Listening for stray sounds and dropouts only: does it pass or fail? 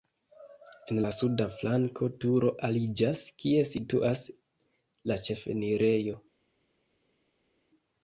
pass